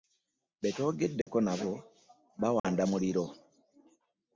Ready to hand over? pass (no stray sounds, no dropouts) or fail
fail